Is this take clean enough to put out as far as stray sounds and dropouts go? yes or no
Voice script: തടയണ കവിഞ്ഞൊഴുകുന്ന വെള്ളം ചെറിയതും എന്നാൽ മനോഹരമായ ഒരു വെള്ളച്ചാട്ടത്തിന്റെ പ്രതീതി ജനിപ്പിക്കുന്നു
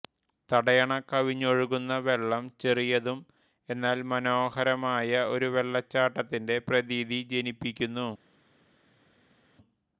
yes